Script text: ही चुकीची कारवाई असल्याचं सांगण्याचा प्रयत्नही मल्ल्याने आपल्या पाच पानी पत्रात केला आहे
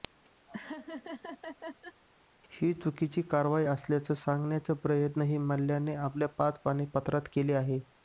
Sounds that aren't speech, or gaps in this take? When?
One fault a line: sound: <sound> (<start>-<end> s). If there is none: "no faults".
sound: laugh (0.5-2.0 s)